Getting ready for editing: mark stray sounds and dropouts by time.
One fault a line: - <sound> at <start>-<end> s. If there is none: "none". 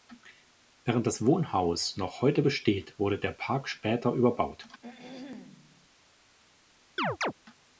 - throat clearing at 4.8-5.9 s
- chirp at 7.0-7.3 s